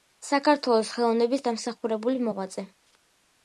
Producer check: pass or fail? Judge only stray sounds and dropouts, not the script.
pass